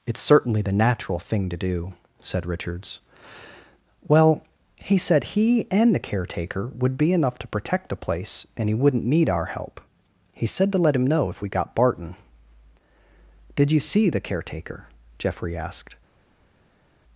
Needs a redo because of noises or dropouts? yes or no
no